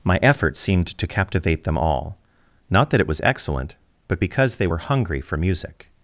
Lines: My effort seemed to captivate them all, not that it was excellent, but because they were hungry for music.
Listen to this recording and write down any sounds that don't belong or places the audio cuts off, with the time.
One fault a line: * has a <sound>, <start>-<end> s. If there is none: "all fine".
all fine